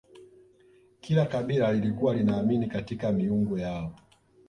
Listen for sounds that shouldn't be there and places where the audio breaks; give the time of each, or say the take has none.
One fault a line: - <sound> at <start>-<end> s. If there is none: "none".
none